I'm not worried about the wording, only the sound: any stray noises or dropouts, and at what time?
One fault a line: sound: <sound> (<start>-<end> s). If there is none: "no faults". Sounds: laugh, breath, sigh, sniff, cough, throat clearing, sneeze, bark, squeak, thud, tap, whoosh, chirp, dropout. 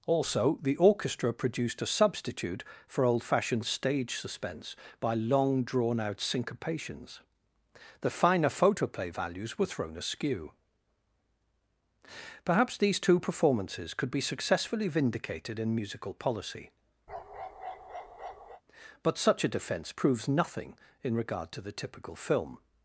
sound: bark (17.1-18.6 s)